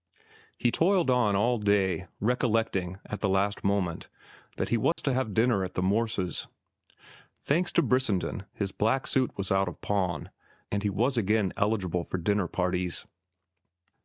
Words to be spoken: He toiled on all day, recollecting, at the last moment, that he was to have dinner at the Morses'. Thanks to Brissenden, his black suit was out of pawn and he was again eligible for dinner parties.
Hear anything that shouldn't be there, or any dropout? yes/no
yes